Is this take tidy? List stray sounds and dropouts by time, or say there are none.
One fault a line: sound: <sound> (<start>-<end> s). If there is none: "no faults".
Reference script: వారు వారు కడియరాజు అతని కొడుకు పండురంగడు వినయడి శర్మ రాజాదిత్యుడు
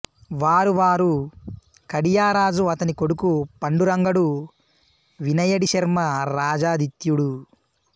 no faults